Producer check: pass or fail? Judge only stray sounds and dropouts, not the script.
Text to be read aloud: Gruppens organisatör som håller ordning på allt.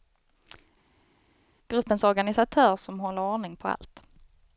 pass